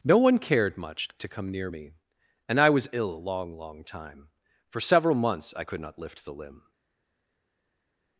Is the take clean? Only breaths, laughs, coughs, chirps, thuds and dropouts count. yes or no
yes